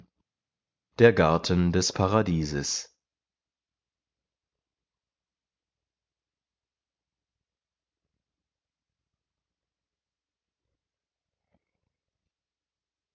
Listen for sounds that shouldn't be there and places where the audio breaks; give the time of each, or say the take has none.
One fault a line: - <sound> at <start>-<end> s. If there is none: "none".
none